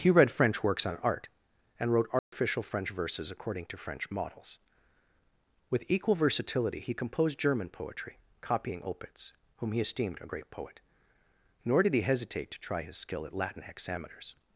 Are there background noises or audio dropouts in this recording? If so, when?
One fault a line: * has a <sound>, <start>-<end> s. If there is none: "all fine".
* has a dropout, 2.2-2.3 s